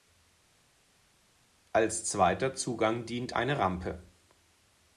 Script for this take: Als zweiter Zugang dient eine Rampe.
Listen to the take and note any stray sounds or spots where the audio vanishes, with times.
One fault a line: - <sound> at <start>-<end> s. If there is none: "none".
none